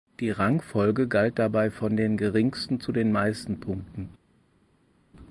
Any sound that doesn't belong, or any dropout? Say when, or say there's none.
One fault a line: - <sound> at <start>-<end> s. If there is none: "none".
none